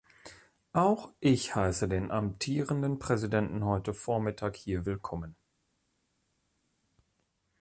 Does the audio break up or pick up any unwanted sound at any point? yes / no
no